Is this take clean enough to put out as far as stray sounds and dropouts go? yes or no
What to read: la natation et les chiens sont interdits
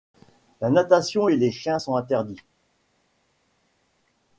yes